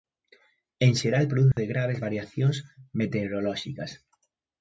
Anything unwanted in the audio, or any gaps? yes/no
yes